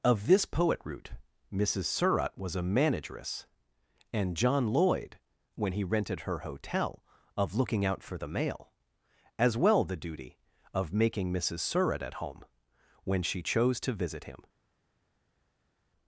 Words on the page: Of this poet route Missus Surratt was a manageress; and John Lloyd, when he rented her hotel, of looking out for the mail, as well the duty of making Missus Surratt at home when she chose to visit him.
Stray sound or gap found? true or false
false